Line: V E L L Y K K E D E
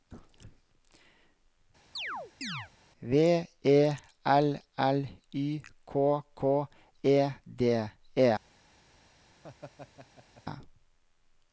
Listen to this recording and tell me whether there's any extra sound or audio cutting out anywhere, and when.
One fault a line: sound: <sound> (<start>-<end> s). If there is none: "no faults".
sound: chirp (2.0-2.7 s)
sound: laugh (9.4-10.4 s)